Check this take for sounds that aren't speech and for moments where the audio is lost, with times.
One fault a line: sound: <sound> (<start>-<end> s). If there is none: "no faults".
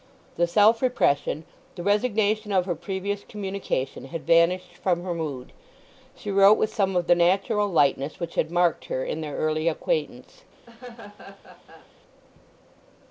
sound: laugh (10.7-11.9 s)